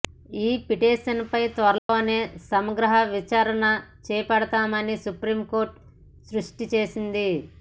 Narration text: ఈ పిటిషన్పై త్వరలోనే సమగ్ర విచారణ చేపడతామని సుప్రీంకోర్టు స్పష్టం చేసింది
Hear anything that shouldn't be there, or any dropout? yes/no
yes